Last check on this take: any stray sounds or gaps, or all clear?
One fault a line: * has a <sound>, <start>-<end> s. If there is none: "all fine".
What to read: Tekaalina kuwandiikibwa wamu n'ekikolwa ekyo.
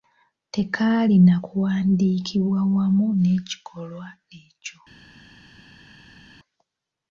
all fine